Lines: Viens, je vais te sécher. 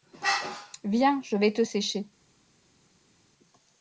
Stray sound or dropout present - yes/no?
no